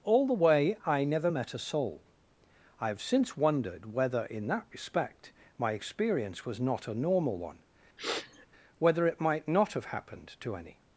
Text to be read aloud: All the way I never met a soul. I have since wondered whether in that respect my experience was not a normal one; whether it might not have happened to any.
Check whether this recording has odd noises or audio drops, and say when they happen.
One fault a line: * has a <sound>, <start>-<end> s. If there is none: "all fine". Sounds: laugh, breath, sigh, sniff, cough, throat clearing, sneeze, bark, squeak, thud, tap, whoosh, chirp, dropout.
* has a sniff, 8.0-8.5 s